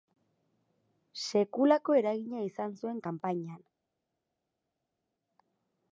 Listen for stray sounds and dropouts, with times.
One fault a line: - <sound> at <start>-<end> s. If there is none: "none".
none